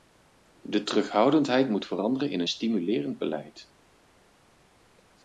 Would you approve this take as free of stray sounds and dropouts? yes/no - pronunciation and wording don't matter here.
yes